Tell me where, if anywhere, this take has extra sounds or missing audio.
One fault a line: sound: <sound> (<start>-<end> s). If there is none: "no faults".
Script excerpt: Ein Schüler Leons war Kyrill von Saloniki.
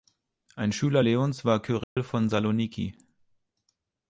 sound: dropout (1.8-2.0 s)